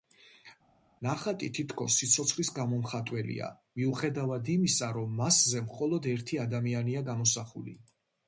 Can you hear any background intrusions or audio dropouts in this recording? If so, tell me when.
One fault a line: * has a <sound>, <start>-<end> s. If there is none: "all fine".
all fine